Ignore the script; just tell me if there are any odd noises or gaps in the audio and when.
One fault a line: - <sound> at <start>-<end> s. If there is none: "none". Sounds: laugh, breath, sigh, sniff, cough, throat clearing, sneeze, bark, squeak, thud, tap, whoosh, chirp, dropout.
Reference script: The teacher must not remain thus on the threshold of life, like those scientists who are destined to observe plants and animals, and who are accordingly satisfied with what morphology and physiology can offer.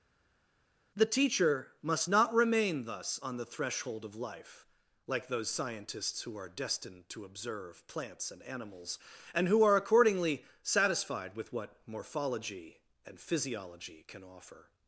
none